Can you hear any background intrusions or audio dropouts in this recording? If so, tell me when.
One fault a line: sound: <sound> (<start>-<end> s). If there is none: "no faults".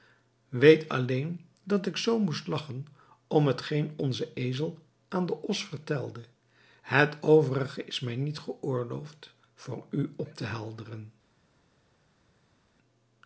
no faults